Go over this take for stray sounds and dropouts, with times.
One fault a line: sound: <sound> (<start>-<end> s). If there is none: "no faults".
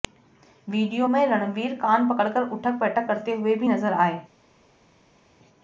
no faults